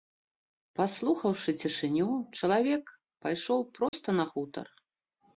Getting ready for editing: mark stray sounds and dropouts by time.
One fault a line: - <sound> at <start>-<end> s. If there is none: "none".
- dropout at 3.9-3.9 s